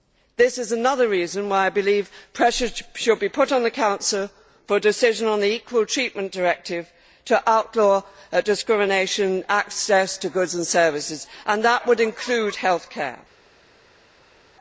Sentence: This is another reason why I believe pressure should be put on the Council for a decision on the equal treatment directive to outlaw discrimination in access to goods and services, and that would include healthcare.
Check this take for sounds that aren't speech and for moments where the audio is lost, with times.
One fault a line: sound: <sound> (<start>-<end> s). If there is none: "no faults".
no faults